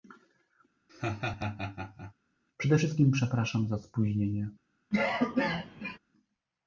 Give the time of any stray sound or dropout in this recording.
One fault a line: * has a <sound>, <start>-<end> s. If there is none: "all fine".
* has a laugh, 0.9-2.1 s
* has a cough, 4.9-6.0 s